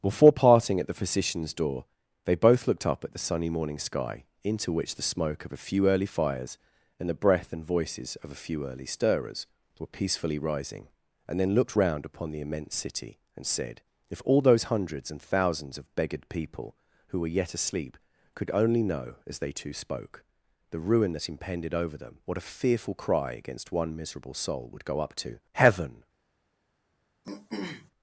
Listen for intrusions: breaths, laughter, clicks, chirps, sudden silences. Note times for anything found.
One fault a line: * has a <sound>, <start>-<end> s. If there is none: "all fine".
* has a throat clearing, 27.2-27.9 s